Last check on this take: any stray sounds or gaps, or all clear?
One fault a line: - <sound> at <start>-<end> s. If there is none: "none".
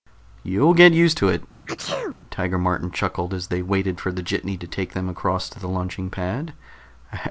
- sneeze at 1.7-2.2 s